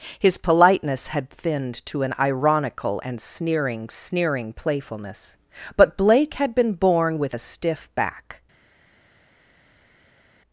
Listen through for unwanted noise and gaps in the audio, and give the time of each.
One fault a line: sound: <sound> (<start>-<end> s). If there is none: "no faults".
no faults